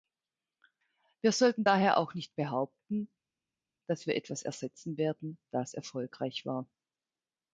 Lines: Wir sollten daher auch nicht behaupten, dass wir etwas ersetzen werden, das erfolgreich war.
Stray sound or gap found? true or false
false